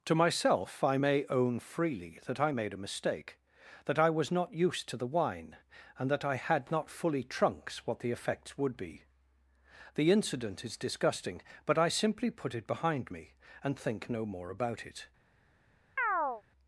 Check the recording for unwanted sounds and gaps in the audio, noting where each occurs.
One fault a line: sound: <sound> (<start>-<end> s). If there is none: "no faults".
sound: chirp (16.0-16.4 s)